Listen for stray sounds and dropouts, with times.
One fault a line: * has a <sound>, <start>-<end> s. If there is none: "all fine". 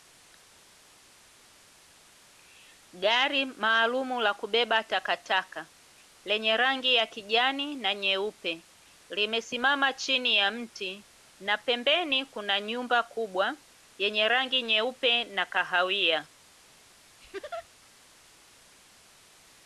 * has a laugh, 17.2-17.7 s